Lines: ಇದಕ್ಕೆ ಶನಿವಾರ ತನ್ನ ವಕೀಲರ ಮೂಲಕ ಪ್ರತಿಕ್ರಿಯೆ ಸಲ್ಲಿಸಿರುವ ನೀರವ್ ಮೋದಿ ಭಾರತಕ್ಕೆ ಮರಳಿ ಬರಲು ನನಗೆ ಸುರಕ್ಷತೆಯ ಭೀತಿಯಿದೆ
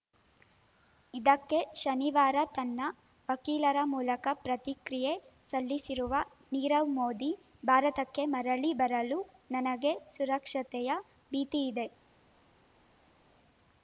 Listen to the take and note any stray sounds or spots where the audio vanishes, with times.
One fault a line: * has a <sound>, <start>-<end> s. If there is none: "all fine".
all fine